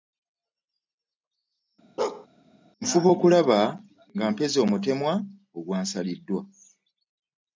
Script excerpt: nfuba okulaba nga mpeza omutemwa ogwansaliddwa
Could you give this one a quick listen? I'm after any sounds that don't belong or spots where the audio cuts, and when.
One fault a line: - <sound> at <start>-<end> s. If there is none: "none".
- bark at 2.0-2.3 s